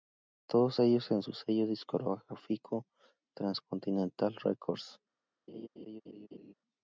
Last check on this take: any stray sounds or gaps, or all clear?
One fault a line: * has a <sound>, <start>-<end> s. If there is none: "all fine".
* has a laugh, 5.5-6.5 s